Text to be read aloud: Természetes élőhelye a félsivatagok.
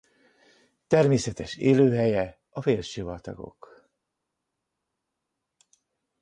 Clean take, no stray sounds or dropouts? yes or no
yes